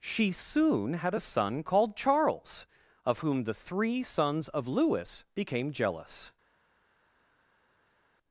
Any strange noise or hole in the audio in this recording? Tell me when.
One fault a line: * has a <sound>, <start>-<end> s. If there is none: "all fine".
all fine